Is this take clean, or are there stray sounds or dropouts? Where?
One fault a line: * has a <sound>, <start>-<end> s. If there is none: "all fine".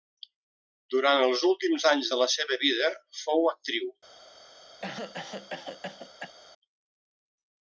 * has a cough, 4.8-6.3 s